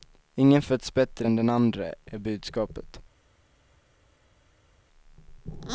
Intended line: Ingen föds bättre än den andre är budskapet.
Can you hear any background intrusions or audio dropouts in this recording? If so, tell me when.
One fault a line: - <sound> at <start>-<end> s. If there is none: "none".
none